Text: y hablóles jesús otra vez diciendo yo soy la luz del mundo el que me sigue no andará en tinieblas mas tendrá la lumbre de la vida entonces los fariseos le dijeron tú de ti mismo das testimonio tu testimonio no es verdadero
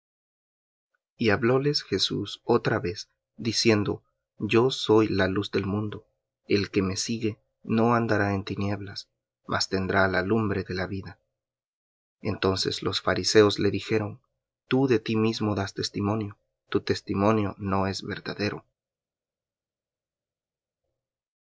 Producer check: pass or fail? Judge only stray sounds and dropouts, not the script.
pass